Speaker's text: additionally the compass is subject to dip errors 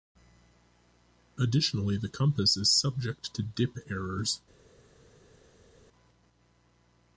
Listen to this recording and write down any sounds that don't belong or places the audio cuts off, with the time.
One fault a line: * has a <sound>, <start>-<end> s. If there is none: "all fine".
all fine